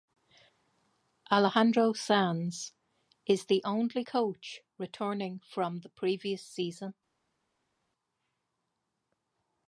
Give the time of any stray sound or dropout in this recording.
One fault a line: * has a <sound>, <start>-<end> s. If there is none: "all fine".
all fine